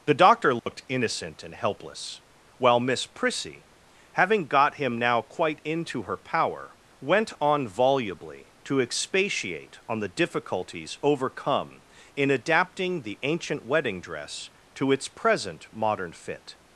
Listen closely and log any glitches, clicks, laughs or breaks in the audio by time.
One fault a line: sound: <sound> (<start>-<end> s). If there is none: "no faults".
sound: dropout (0.6-0.7 s)